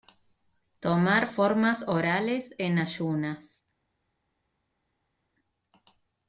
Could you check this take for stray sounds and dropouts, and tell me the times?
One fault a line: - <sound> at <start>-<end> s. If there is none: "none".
none